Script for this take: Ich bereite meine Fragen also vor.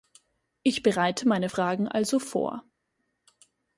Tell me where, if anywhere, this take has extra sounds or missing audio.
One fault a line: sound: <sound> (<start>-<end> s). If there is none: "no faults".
no faults